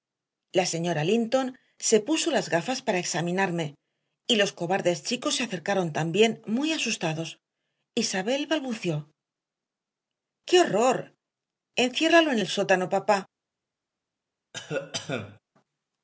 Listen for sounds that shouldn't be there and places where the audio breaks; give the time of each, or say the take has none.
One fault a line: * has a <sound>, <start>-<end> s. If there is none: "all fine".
* has a cough, 14.5-15.4 s